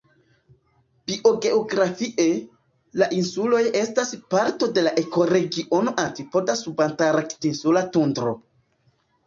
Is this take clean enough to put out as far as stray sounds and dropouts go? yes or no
yes